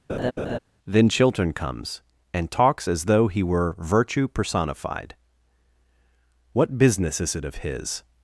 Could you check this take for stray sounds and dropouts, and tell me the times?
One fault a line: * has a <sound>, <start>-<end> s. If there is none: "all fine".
* has a laugh, 0.1-0.6 s